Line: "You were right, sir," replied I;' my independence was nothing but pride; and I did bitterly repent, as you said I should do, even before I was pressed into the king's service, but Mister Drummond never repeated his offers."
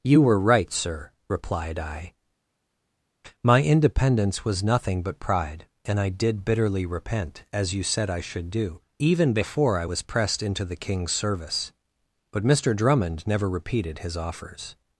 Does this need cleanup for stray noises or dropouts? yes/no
no